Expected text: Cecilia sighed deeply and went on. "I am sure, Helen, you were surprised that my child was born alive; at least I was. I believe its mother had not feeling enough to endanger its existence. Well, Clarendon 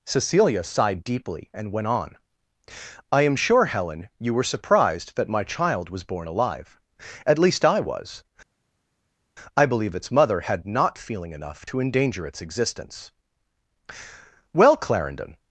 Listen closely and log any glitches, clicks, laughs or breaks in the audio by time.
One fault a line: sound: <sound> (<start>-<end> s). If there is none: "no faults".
no faults